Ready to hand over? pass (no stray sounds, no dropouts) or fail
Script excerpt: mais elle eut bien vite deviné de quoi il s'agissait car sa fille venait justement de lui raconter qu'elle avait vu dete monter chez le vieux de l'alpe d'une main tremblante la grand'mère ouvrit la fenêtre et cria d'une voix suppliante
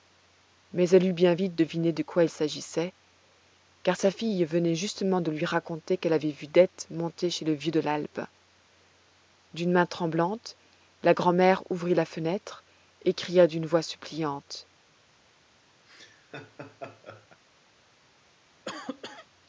fail